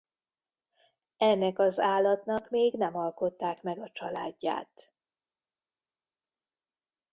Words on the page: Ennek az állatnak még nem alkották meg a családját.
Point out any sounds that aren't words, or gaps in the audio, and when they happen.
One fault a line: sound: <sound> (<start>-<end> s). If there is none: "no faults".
no faults